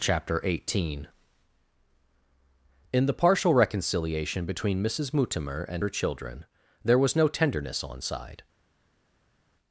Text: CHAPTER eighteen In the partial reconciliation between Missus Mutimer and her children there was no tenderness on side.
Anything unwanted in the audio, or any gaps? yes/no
no